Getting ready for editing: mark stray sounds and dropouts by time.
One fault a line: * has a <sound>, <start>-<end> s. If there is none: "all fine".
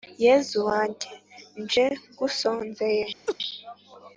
* has a laugh, 3.3-3.4 s